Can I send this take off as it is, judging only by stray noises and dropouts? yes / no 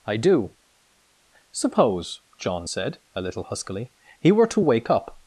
yes